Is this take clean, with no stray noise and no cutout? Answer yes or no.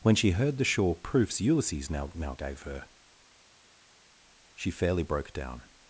yes